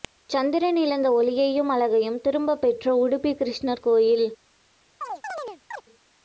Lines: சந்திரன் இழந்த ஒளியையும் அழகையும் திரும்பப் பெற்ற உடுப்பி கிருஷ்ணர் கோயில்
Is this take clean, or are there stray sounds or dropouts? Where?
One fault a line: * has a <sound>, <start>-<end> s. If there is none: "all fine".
* has a chirp, 5.0-5.8 s